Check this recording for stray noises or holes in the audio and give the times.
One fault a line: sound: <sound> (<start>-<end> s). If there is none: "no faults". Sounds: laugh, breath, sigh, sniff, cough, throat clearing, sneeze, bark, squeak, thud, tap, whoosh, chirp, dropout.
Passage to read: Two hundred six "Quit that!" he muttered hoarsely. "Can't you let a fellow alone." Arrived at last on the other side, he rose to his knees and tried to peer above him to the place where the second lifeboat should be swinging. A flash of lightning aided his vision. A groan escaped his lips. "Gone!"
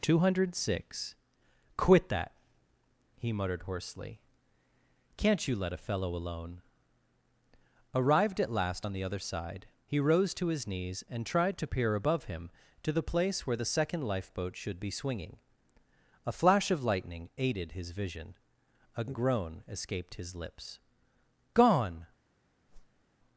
sound: whoosh (22.7-23.0 s)